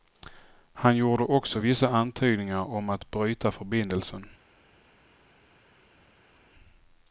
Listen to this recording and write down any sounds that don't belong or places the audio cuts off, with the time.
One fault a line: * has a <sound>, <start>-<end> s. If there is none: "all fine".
all fine